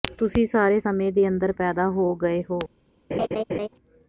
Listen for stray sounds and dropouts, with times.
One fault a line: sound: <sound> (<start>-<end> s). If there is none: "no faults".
sound: laugh (3.1-3.7 s)